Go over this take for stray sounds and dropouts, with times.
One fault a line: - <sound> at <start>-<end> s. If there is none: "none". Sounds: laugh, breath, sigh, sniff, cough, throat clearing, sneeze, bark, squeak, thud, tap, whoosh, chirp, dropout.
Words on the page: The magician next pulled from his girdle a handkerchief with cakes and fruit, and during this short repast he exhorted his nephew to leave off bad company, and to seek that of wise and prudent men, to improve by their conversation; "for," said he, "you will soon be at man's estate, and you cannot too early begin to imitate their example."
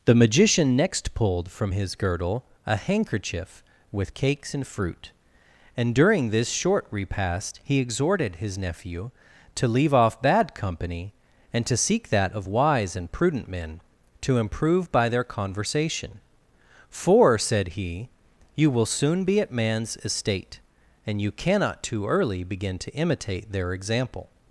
none